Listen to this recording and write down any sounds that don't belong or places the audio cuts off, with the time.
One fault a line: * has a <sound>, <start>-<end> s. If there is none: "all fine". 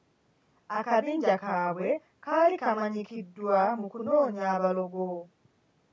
all fine